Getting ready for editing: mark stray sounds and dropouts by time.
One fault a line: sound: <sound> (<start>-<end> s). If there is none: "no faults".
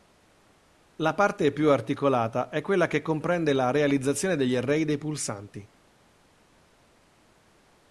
no faults